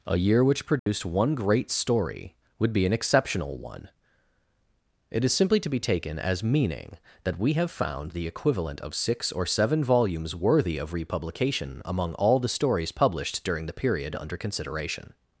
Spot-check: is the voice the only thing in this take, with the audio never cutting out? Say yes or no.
no